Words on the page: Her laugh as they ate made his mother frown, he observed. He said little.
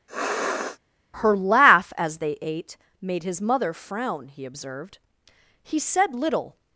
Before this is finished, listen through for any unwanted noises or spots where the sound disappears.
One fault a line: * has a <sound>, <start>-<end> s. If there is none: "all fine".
* has a sniff, 0.1-0.8 s